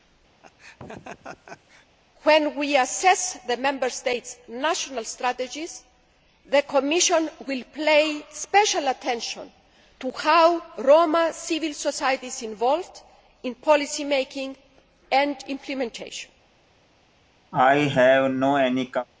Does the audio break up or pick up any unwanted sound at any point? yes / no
yes